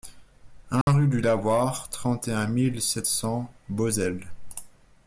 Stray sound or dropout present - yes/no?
yes